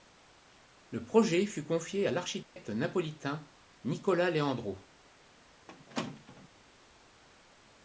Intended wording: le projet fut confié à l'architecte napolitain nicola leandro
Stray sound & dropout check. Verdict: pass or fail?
fail